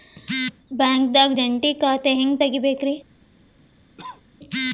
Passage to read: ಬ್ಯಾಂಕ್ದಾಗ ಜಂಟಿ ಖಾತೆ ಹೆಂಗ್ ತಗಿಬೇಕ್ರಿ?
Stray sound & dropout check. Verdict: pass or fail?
fail